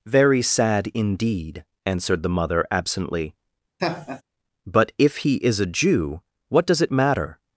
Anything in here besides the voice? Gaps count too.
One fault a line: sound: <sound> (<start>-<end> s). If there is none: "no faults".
sound: laugh (3.8-4.2 s)